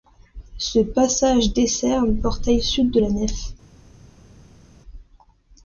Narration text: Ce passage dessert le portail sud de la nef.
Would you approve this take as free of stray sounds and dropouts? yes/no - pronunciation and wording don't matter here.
yes